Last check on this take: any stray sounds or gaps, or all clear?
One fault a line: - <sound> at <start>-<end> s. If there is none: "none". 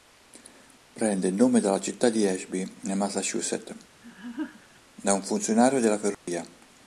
- laugh at 4.0-4.8 s
- dropout at 6.1-6.3 s